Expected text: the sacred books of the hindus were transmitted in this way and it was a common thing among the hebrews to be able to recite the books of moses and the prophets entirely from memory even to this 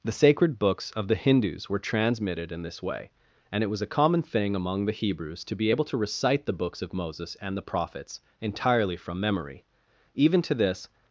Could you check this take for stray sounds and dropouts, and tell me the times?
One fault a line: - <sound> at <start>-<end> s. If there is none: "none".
none